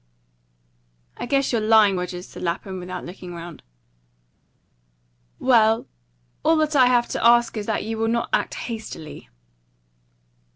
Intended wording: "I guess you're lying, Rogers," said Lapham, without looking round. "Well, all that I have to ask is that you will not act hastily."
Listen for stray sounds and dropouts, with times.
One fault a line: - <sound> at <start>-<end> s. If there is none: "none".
none